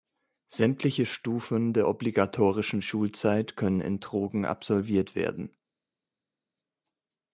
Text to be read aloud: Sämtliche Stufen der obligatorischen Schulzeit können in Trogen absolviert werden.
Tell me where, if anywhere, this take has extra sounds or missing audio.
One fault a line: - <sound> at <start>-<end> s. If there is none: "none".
none